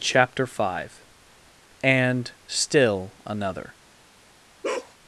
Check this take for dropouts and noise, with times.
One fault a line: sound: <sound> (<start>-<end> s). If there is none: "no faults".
sound: bark (4.6-4.9 s)